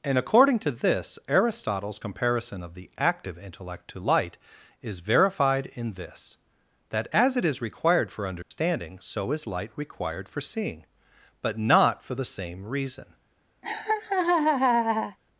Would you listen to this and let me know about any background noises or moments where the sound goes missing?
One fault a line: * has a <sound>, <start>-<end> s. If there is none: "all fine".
* has a dropout, 8.4-8.5 s
* has a laugh, 13.6-15.2 s